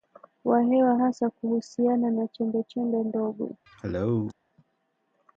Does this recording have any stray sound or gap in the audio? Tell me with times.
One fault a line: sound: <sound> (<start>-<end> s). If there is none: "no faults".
sound: cough (3.7-4.3 s)